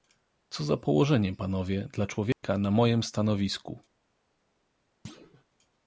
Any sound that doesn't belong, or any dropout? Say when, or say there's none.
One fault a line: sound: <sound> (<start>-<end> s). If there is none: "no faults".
sound: dropout (2.3-2.4 s)
sound: thud (5.0-5.4 s)